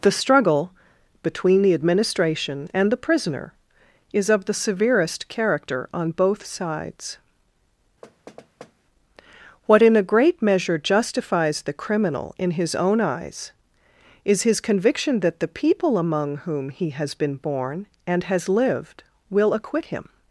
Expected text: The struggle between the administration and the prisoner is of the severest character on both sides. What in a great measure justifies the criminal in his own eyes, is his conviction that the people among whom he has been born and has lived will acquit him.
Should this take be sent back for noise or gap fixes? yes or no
yes